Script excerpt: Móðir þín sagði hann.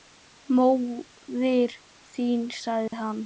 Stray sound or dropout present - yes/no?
yes